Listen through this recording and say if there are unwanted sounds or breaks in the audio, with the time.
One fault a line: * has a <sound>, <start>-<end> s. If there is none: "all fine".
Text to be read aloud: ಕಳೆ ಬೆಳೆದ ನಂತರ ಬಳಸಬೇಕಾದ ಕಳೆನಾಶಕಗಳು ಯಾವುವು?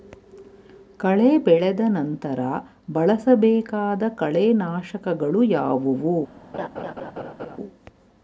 * has a laugh, 6.5-7.6 s